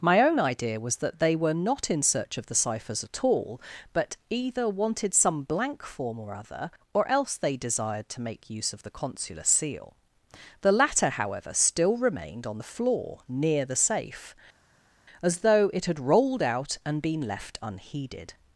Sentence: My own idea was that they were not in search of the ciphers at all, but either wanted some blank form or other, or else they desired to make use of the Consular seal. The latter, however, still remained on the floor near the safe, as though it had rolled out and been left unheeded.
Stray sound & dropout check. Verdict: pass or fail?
pass